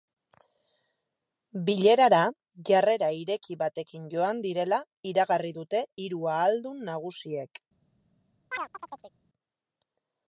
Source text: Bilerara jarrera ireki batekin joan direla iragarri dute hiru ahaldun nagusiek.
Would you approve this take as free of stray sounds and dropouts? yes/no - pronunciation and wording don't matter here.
no